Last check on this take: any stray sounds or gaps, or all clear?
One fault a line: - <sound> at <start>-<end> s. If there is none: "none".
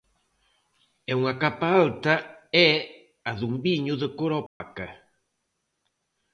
- dropout at 4.5-4.6 s